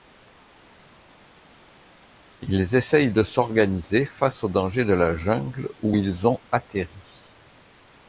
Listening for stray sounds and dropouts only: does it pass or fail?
pass